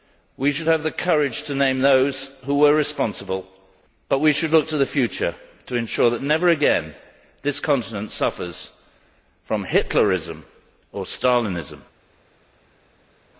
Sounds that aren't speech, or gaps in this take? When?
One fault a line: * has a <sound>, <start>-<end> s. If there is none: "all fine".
all fine